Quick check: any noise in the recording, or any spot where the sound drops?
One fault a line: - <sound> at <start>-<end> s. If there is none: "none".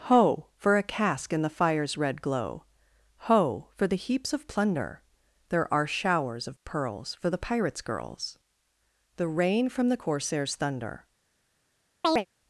- chirp at 12.0-12.3 s